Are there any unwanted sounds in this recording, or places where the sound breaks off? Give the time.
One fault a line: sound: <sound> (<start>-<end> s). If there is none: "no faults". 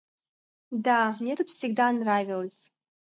no faults